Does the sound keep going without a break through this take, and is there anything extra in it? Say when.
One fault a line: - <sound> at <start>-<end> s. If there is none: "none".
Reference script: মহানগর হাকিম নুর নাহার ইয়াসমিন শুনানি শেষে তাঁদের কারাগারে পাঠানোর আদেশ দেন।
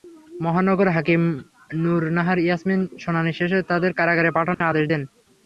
- dropout at 4.5-4.6 s